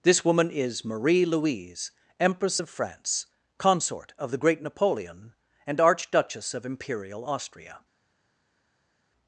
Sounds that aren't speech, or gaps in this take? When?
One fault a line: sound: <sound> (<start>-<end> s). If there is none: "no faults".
no faults